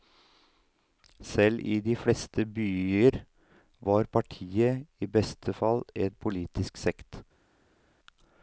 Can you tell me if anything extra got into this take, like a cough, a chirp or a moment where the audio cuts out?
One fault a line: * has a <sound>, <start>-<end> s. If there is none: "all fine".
all fine